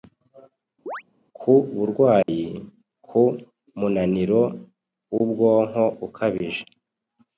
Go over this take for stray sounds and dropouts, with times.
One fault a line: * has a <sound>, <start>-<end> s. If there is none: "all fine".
* has a chirp, 0.9-1.0 s
* has a dropout, 2.2-2.3 s